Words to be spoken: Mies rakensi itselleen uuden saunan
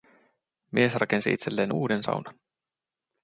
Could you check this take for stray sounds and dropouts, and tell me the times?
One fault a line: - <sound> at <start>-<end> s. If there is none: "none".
none